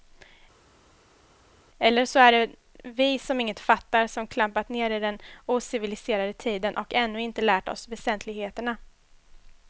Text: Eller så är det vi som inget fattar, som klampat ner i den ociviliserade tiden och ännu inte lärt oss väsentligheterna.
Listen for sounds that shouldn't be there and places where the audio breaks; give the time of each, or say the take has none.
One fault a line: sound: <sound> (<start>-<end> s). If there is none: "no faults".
no faults